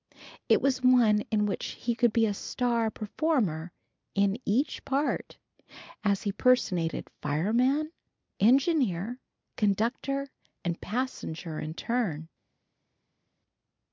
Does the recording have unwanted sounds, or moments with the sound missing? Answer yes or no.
no